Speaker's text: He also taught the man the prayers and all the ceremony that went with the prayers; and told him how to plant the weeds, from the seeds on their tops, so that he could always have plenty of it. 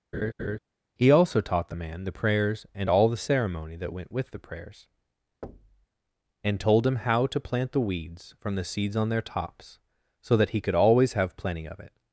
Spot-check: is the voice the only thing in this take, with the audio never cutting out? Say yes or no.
no